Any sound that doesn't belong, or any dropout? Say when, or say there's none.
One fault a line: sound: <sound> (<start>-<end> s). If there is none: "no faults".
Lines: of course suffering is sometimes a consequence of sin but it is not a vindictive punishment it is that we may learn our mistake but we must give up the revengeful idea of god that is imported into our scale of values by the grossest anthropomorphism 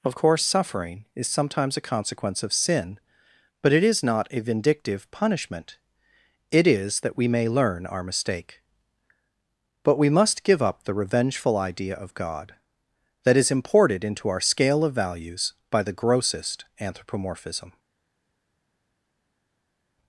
no faults